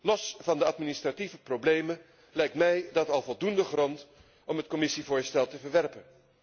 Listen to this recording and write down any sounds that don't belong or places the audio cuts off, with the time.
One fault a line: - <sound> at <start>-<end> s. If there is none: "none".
none